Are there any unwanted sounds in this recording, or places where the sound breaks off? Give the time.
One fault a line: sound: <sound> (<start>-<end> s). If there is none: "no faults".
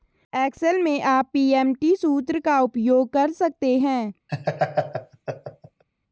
sound: laugh (4.3-5.8 s)